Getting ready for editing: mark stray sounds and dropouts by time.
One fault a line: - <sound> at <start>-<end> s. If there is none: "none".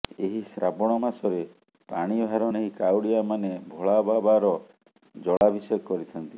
- dropout at 5.4-5.4 s